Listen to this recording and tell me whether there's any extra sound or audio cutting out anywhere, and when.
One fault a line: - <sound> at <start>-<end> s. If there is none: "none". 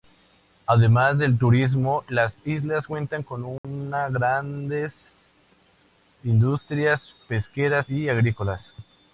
- dropout at 3.6-3.6 s